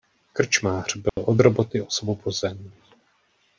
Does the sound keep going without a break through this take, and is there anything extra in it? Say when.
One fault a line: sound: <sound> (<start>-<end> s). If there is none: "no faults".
sound: dropout (1.1-1.2 s)